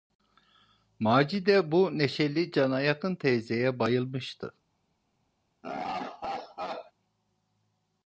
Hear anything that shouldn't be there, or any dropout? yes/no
yes